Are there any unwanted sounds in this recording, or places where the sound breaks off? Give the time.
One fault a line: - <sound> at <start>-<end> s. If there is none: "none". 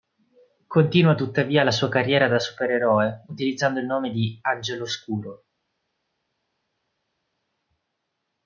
none